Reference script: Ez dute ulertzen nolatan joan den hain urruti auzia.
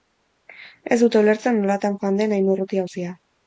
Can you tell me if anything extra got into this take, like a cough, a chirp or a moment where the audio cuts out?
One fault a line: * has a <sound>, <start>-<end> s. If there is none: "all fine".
all fine